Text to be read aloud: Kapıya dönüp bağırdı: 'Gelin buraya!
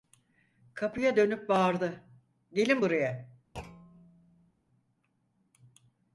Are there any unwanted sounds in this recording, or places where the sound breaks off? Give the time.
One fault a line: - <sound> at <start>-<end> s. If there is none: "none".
- thud at 3.5-4.5 s